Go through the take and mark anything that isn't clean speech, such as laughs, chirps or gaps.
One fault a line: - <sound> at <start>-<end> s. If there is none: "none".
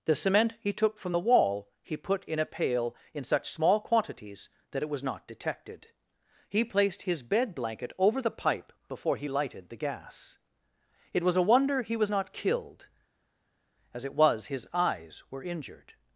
none